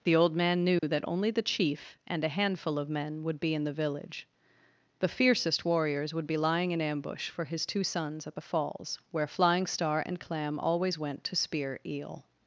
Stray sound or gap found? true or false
true